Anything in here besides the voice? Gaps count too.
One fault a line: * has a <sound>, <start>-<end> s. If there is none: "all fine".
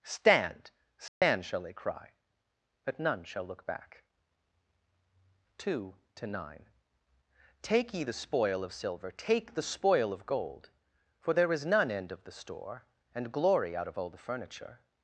* has a dropout, 1.1-1.2 s